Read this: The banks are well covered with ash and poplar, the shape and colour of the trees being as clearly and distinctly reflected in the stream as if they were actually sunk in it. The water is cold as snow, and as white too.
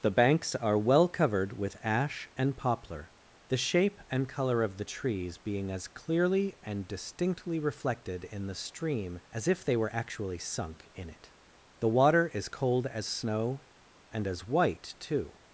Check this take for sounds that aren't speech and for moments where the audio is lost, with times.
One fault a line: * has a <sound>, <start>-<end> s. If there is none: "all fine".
all fine